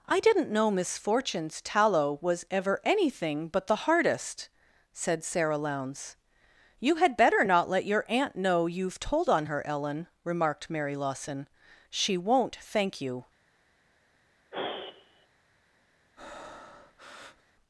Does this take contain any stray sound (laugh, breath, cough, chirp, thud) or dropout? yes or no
yes